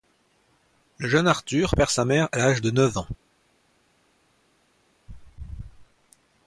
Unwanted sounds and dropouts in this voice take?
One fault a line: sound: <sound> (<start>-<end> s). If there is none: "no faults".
no faults